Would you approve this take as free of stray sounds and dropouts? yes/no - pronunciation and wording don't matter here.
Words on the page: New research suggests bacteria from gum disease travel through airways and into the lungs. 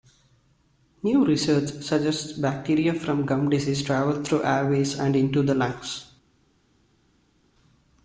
yes